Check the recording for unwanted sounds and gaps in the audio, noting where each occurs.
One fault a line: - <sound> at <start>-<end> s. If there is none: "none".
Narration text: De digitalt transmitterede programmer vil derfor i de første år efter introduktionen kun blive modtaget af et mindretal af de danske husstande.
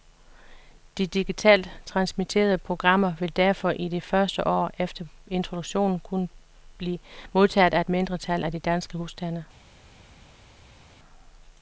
none